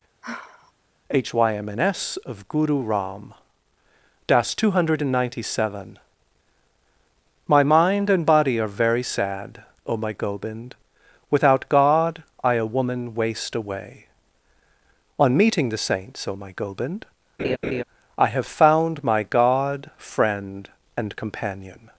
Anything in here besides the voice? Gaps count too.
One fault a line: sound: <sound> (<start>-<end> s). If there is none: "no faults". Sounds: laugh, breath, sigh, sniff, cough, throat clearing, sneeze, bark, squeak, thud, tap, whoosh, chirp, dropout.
sound: sigh (0.2-0.7 s)
sound: laugh (17.4-17.8 s)